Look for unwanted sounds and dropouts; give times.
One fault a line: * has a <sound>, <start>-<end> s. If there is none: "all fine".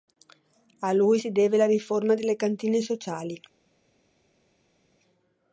all fine